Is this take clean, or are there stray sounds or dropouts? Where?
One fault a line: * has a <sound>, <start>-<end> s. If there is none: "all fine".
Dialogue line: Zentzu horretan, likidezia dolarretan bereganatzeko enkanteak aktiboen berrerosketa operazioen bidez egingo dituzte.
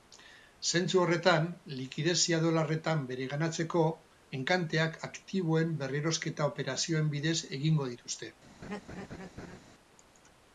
* has a laugh, 8.6-9.6 s